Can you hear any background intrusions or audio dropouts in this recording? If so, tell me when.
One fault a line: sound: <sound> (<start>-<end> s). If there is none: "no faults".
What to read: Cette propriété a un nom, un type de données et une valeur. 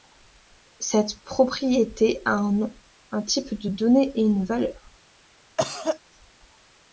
sound: cough (5.6-6.0 s)